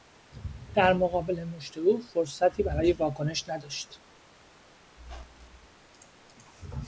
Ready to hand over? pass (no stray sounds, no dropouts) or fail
fail